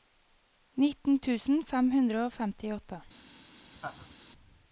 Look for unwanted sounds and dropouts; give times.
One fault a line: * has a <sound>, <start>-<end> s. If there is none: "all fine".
* has a laugh, 3.8-4.1 s